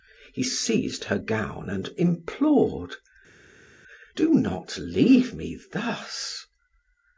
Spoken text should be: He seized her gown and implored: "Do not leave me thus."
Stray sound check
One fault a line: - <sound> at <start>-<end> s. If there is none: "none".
none